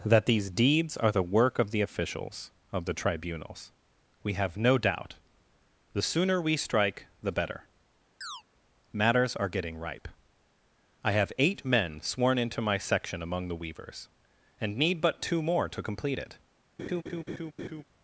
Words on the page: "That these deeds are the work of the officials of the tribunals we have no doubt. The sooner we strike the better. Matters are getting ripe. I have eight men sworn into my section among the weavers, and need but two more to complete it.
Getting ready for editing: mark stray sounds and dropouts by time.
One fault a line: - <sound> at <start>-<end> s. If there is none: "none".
- chirp at 8.2-8.4 s
- laugh at 16.8-17.8 s